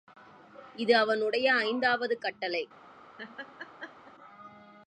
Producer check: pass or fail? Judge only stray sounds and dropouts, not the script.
fail